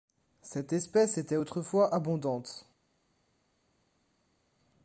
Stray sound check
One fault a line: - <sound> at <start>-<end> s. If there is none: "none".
none